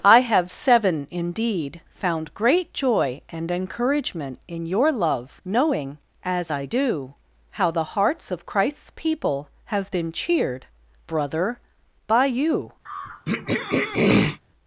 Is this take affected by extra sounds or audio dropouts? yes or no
yes